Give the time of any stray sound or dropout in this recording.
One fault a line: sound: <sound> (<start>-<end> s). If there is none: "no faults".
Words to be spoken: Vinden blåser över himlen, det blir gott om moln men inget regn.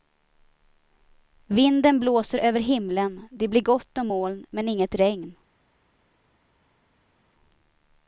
no faults